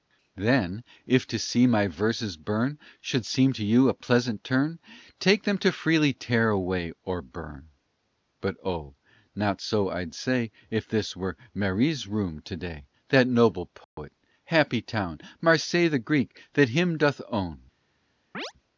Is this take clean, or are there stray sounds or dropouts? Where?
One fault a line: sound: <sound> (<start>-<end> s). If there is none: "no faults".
sound: dropout (13.8-14.0 s)
sound: chirp (18.3-18.5 s)